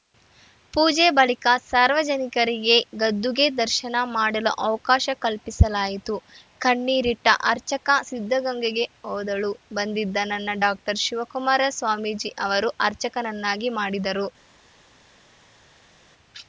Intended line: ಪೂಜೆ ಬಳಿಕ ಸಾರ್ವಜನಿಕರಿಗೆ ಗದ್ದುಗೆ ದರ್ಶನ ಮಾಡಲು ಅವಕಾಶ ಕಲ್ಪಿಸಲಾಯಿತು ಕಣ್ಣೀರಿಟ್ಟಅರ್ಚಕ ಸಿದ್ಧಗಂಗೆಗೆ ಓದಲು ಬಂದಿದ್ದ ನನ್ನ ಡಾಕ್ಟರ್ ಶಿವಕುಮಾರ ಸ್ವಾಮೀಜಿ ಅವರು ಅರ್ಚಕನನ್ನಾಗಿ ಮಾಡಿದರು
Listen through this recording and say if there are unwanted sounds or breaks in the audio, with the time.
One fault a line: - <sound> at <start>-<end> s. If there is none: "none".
none